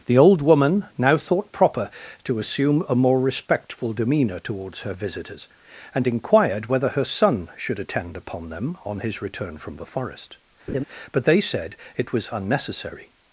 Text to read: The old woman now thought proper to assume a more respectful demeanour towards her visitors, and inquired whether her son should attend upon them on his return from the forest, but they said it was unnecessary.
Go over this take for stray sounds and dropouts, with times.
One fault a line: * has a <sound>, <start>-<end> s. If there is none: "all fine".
* has a laugh, 10.7-10.8 s